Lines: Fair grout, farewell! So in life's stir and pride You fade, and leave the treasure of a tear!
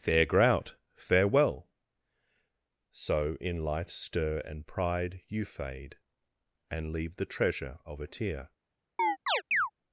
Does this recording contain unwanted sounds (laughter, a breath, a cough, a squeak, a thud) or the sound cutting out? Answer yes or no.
yes